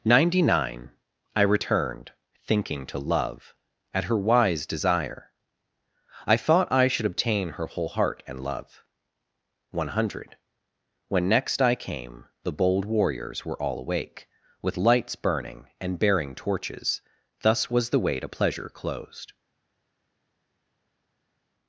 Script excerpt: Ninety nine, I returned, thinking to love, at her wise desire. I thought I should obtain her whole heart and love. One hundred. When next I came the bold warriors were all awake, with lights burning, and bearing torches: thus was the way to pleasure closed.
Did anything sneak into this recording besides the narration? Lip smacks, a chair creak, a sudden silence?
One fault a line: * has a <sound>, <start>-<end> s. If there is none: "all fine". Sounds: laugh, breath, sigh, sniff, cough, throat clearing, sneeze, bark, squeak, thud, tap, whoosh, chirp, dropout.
all fine